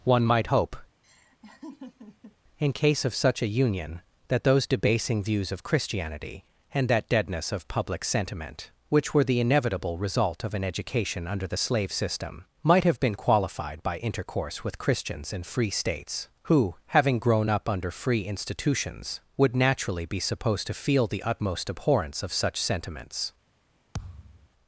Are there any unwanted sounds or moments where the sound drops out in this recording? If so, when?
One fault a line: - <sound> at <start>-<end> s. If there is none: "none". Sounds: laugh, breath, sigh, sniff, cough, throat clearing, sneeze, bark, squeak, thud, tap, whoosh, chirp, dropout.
- laugh at 1.0-2.4 s
- thud at 23.9-24.5 s